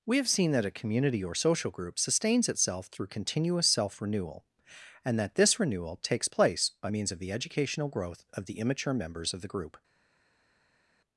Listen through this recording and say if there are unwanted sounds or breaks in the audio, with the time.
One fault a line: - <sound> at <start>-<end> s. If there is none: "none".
none